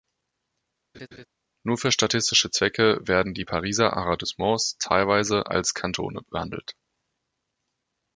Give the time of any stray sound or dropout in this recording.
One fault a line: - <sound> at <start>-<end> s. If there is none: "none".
- laugh at 0.9-1.3 s